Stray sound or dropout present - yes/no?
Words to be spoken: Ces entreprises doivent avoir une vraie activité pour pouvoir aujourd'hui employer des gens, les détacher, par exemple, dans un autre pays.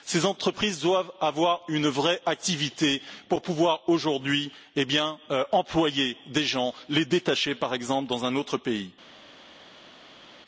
no